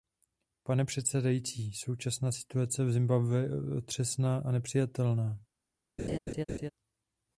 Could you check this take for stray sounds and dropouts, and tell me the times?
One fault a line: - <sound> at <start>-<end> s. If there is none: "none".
- laugh at 6.0-6.7 s